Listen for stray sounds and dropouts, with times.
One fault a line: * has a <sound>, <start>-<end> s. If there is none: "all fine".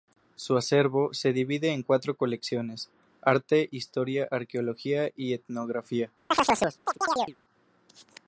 * has a chirp, 6.3-7.4 s